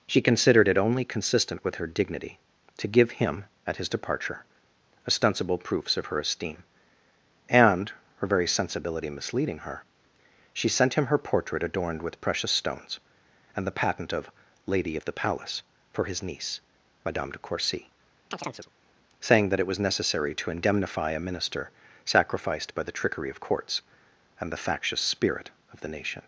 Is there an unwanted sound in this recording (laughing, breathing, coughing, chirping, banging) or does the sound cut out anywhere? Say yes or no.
yes